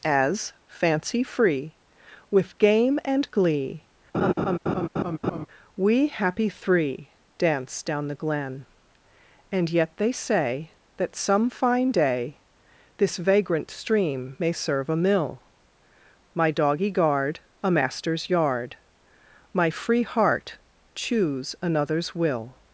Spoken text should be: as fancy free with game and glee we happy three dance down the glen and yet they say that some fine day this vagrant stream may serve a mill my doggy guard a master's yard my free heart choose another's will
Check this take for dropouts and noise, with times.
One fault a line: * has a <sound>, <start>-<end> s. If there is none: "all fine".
* has a laugh, 4.1-5.5 s